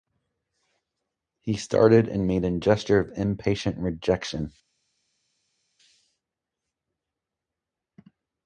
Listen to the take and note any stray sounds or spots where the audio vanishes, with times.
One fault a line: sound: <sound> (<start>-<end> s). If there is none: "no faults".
no faults